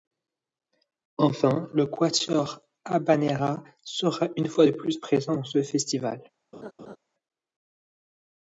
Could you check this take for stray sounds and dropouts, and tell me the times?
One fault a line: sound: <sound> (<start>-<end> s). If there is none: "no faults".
sound: laugh (6.5-7.0 s)